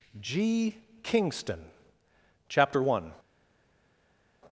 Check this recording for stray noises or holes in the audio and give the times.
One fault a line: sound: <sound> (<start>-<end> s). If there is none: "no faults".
no faults